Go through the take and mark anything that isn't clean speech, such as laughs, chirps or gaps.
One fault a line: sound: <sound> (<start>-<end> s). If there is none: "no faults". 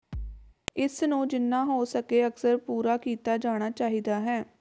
sound: thud (0.1-0.6 s)